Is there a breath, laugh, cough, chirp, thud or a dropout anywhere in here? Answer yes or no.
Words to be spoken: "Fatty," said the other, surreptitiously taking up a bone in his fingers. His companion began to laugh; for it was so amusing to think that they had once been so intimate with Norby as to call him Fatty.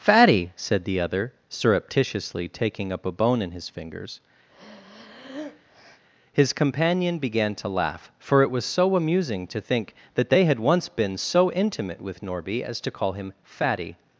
yes